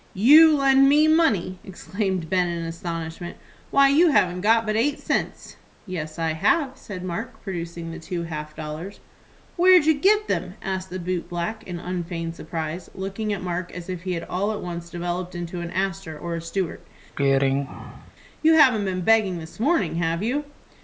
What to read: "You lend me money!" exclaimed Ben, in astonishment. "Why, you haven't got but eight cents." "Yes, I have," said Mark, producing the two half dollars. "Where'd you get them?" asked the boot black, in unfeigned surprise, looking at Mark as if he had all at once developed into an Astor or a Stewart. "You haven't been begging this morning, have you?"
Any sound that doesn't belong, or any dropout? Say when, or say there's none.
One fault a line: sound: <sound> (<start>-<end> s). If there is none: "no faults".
sound: throat clearing (17.2-18.1 s)